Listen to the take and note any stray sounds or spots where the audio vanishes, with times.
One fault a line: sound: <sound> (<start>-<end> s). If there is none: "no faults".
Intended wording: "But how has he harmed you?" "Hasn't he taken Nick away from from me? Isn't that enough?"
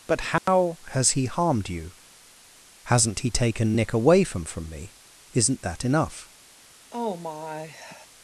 sound: dropout (0.4-0.5 s)
sound: sigh (6.9-8.1 s)